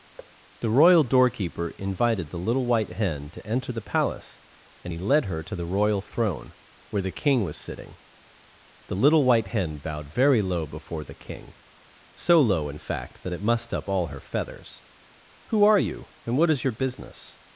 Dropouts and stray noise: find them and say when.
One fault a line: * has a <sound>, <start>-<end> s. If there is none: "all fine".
* has a thud, 0.2-0.3 s